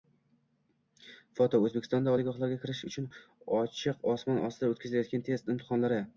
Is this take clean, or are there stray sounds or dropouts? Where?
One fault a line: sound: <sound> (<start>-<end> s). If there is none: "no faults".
no faults